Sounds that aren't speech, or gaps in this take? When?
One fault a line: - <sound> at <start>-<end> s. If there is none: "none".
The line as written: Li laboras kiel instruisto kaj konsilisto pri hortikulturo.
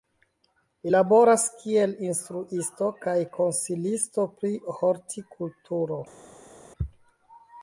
none